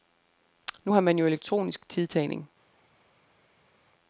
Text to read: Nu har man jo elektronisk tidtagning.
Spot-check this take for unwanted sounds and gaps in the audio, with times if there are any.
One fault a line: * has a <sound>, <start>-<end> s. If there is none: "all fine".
all fine